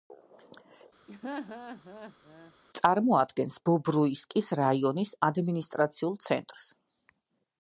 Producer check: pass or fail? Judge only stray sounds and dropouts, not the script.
fail